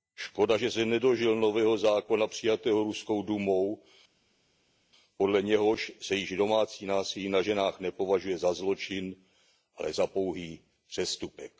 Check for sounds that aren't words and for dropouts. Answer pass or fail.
pass